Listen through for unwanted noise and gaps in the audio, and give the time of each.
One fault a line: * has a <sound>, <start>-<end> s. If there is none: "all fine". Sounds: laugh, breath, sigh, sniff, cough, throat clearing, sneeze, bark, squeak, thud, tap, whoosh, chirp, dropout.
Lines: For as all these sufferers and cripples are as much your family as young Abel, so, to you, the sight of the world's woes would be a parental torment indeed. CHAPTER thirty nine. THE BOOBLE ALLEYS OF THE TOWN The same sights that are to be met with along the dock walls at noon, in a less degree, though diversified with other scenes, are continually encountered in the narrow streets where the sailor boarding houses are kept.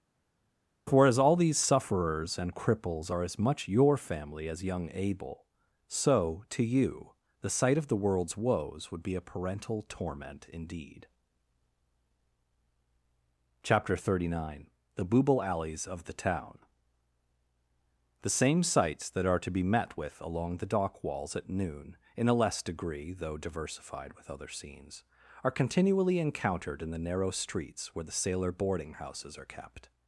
all fine